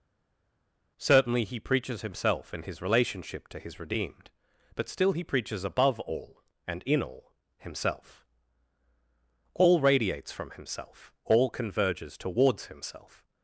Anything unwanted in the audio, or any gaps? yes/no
no